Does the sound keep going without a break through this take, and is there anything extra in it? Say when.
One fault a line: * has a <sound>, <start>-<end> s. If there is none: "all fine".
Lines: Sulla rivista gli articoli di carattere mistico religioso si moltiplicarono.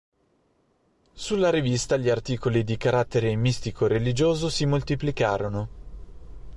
all fine